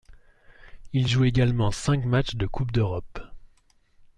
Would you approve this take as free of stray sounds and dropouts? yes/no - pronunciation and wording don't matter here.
yes